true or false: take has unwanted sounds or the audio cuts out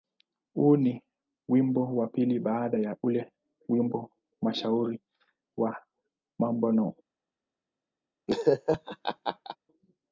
true